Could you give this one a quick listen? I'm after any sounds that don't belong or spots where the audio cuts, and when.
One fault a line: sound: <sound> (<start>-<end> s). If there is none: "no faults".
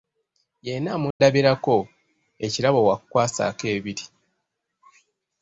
sound: dropout (1.1-1.2 s)